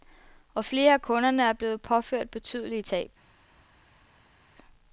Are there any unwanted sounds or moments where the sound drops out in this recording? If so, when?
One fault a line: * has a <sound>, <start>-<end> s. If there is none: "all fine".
all fine